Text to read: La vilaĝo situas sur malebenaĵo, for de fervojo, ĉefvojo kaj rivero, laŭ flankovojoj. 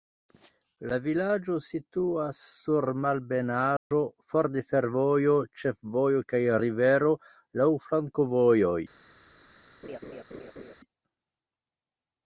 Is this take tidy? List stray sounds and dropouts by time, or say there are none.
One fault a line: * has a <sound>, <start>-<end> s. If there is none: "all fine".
* has a dropout, 3.8-3.9 s
* has a laugh, 9.8-10.8 s